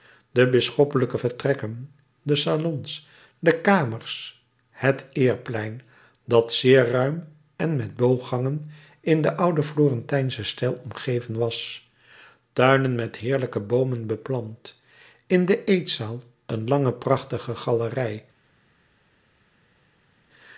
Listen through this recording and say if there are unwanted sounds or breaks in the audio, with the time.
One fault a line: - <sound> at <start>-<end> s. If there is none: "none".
none